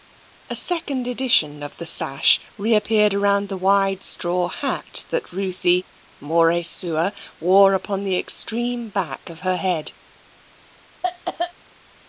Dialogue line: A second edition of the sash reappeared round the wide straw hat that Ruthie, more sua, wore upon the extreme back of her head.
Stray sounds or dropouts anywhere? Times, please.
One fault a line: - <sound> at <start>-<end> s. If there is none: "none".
- cough at 11.0-11.5 s